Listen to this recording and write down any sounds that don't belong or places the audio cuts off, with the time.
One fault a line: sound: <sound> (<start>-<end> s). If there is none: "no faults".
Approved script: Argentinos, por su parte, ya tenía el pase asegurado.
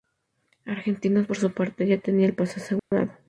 sound: dropout (2.8-2.9 s)